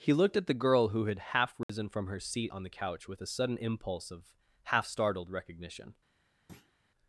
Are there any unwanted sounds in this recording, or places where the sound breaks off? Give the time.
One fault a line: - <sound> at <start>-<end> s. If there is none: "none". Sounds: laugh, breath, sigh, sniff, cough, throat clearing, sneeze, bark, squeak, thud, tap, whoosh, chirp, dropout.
- dropout at 1.6-1.7 s
- thud at 6.5-6.7 s